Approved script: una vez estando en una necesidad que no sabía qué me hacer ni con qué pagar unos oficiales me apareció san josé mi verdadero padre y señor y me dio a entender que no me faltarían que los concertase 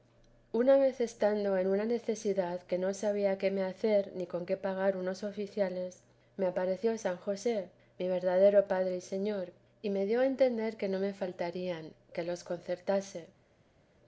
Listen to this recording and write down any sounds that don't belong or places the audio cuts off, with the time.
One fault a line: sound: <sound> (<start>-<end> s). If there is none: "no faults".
no faults